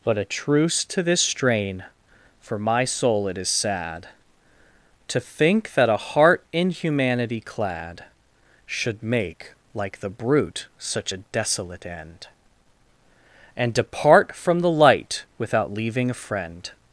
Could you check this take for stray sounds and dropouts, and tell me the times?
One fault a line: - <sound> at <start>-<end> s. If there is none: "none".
none